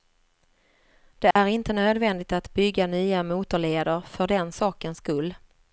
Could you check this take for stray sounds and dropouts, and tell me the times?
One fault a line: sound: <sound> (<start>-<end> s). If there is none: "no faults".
sound: dropout (1.3-1.4 s)